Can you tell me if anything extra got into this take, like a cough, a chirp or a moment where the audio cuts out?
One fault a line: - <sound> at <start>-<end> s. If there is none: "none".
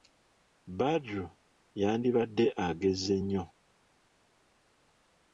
none